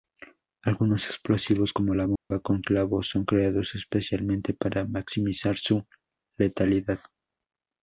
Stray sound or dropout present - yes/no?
yes